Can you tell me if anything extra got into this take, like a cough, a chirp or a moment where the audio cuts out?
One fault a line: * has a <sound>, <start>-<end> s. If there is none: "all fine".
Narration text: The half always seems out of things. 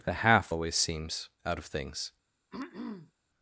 * has a throat clearing, 2.5-3.1 s